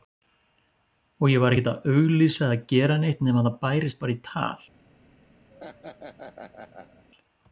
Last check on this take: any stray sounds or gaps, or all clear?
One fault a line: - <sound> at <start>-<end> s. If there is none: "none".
- laugh at 5.5-7.0 s